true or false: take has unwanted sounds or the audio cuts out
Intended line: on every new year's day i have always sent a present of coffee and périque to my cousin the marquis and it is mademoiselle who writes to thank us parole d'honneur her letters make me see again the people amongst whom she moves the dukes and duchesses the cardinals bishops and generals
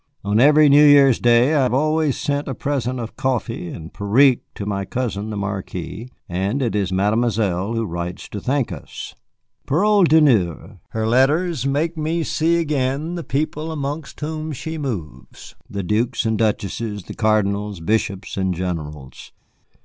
false